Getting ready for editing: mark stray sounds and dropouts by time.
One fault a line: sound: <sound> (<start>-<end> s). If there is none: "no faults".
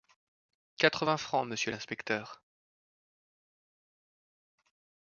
no faults